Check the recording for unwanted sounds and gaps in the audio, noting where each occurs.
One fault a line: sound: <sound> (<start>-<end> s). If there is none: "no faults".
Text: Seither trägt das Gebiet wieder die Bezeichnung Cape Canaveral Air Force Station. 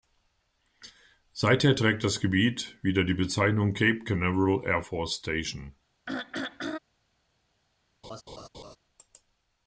sound: throat clearing (6.1-6.8 s)
sound: laugh (8.0-8.8 s)